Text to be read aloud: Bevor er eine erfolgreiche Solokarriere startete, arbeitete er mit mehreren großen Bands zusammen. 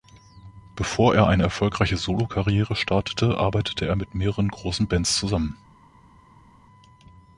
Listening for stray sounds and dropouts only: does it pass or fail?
pass